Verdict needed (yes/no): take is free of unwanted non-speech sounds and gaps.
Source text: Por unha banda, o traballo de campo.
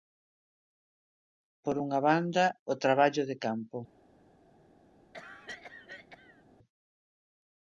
no